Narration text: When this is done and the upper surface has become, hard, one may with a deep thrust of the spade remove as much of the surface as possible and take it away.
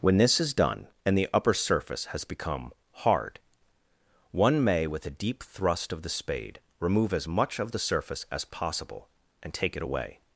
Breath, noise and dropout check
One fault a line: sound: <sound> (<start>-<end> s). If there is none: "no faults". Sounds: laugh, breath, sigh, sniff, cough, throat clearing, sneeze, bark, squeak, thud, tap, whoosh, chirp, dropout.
no faults